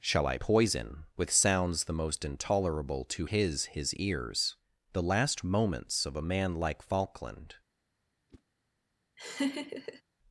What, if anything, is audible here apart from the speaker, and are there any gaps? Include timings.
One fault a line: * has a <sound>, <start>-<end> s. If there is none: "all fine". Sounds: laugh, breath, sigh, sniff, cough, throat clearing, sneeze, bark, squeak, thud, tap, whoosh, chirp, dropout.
* has a whoosh, 8.3-8.4 s
* has a laugh, 9.2-10.0 s